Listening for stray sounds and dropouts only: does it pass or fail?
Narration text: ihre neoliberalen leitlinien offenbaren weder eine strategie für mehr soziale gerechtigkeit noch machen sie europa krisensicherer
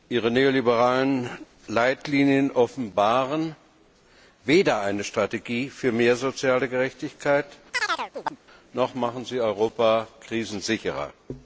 fail